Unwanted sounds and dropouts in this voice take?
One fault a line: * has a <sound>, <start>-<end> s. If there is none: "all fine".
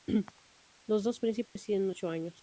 * has a dropout, 1.5-1.6 s